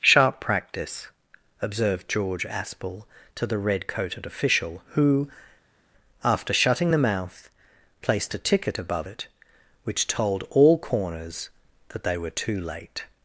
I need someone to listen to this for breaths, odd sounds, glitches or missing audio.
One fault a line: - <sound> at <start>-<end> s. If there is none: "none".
none